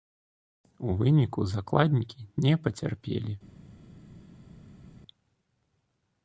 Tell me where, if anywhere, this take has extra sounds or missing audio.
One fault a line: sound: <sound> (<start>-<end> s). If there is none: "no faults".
no faults